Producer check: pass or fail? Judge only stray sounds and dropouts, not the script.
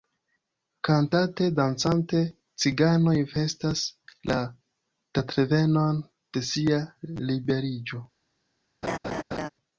fail